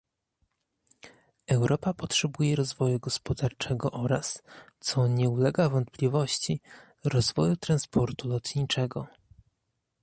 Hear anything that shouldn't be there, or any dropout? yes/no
no